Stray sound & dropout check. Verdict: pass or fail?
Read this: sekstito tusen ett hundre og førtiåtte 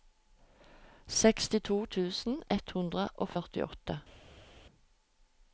pass